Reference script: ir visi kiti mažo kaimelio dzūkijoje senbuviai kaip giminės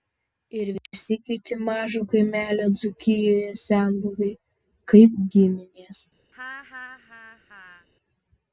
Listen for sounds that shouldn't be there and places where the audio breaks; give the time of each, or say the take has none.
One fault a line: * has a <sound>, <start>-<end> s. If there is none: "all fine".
* has a laugh, 6.3-7.9 s